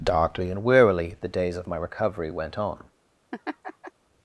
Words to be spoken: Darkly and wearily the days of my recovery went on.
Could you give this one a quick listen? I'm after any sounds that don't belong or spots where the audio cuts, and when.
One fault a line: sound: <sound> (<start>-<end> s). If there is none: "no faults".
sound: laugh (3.3-3.9 s)